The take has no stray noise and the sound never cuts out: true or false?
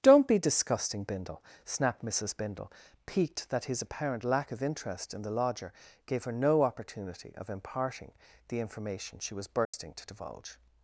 false